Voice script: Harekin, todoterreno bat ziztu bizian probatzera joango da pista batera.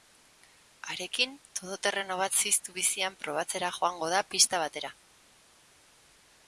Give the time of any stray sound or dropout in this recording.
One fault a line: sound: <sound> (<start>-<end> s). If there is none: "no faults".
no faults